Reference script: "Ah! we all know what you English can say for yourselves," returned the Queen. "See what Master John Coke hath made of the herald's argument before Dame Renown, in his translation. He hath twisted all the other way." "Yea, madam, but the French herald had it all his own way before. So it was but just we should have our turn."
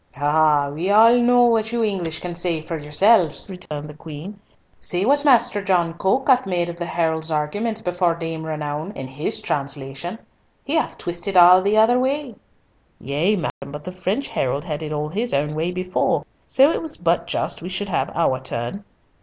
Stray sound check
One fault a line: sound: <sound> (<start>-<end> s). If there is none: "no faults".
sound: dropout (3.7-3.7 s)
sound: dropout (13.5-13.6 s)